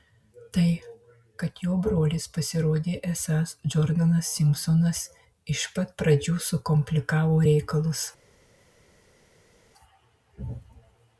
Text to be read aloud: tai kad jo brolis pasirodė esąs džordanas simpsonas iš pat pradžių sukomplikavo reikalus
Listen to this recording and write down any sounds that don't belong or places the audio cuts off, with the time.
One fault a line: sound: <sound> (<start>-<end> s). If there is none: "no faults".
no faults